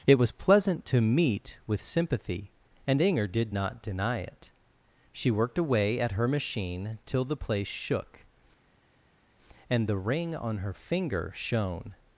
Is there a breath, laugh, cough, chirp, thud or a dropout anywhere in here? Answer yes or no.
no